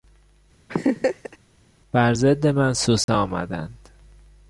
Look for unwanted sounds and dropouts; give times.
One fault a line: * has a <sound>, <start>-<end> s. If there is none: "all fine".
* has a laugh, 0.7-1.4 s
* has a dropout, 3.0-3.1 s